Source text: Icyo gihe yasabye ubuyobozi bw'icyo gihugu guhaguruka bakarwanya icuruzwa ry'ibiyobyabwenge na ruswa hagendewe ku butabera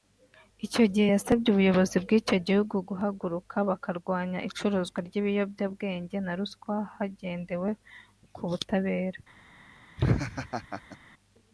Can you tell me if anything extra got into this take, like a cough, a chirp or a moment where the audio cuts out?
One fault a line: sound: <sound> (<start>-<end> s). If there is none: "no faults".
sound: laugh (10.0-11.0 s)